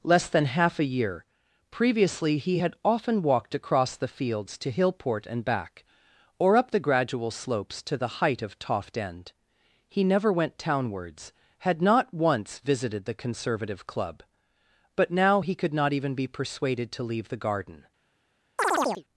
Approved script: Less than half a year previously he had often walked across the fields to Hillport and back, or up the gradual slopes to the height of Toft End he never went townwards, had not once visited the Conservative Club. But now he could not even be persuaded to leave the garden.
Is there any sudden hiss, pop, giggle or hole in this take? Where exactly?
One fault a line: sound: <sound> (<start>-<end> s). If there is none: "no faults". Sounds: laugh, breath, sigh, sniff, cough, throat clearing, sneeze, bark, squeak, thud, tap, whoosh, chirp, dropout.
sound: chirp (18.6-19.0 s)